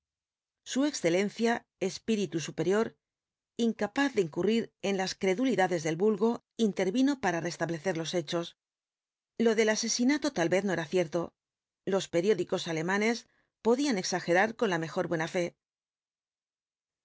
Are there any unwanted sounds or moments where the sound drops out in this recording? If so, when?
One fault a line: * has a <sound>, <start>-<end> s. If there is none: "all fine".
all fine